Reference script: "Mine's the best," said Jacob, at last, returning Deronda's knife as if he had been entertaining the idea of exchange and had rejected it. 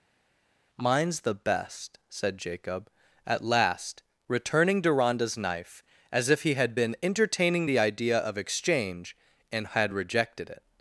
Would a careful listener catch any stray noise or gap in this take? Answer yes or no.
no